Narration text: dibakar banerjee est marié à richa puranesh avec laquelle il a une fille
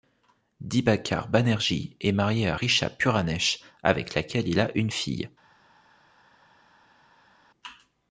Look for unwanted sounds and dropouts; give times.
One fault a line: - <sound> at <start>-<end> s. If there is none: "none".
none